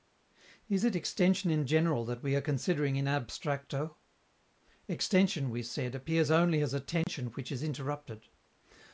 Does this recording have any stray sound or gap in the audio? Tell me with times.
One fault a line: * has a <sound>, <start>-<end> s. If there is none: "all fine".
* has a dropout, 7.0-7.1 s